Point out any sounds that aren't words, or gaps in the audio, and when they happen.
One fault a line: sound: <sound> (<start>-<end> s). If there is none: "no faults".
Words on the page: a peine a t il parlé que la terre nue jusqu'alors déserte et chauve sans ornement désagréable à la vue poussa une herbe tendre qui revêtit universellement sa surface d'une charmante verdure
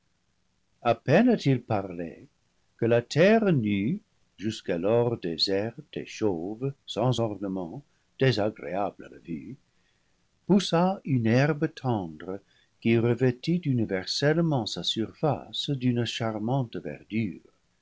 no faults